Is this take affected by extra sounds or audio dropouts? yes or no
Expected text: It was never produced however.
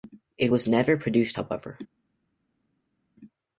no